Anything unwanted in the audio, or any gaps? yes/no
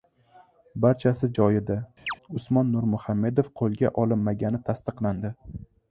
yes